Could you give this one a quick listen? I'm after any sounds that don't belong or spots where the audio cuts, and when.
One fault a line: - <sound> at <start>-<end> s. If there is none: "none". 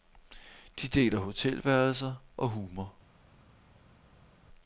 none